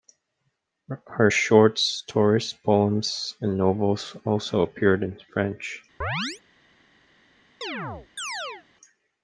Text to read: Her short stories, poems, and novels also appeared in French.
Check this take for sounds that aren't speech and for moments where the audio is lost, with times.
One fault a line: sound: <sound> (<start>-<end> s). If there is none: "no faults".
sound: chirp (6.0-6.4 s)
sound: chirp (7.6-8.7 s)